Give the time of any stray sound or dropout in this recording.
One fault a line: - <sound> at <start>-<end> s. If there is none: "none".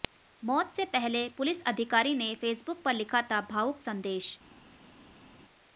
none